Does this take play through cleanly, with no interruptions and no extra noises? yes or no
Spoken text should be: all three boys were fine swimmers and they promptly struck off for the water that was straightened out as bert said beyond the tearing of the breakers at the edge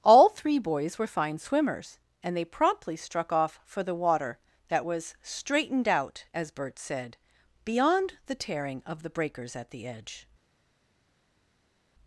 yes